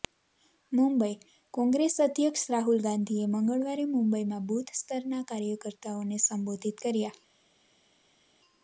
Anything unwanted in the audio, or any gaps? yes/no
no